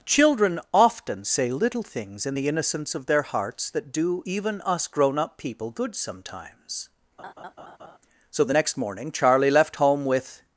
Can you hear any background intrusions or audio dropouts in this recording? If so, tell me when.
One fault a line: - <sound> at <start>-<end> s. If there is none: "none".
- laugh at 7.2-8.0 s